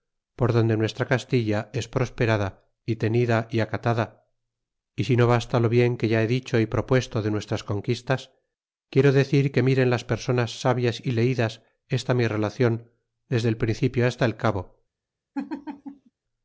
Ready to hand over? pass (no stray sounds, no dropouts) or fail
fail